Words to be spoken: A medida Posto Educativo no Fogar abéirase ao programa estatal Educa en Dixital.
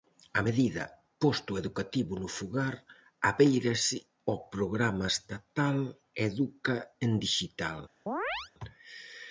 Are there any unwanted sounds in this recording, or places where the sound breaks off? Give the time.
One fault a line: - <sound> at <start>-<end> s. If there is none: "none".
- chirp at 8.1-8.5 s